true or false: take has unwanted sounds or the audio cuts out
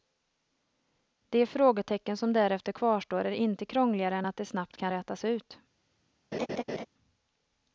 true